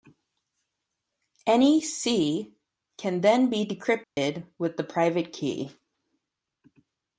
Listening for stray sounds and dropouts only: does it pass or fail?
fail